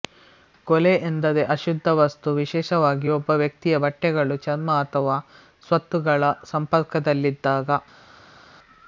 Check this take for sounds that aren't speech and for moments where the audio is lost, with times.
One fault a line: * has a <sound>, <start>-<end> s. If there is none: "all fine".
all fine